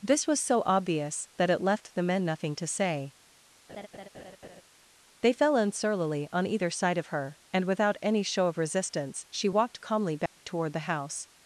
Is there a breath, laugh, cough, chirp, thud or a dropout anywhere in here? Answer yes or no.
yes